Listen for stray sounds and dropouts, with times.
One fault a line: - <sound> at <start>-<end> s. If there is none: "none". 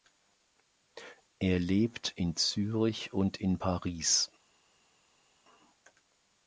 none